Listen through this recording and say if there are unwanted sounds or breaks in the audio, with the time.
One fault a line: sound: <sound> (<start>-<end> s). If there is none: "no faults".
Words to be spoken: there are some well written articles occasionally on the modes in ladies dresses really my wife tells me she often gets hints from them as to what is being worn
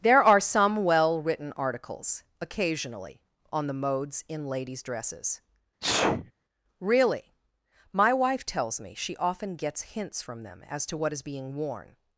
sound: sneeze (5.8-6.3 s)